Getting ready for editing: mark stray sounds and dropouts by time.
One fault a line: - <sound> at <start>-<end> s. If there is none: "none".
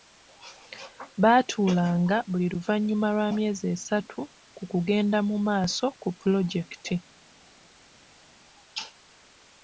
none